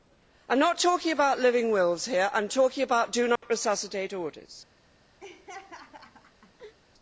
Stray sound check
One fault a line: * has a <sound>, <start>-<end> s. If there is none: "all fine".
* has a dropout, 3.4-3.4 s
* has a laugh, 5.2-6.7 s